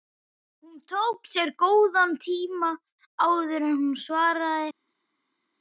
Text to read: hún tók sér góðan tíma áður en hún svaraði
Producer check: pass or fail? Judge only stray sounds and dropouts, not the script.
pass